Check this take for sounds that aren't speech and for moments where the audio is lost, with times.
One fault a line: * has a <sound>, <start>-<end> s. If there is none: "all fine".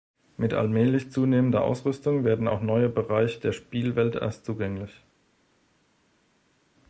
all fine